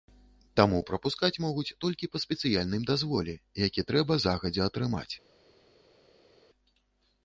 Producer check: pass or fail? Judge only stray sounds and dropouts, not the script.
pass